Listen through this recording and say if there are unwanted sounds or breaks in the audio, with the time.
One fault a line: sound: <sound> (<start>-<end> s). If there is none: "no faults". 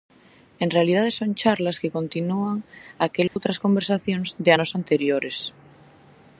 sound: dropout (3.3-3.4 s)